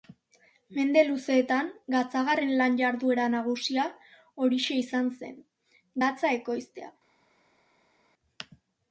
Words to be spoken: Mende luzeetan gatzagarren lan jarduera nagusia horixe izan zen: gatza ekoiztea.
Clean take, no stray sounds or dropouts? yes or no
yes